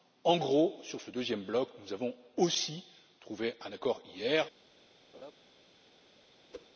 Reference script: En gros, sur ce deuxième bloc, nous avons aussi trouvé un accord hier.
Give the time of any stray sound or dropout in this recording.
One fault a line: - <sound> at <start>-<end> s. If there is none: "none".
- laugh at 5.1-5.3 s
- whoosh at 6.5-6.7 s